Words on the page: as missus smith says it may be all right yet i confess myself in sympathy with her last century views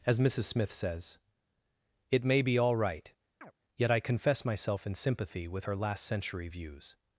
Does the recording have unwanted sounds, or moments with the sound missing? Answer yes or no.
yes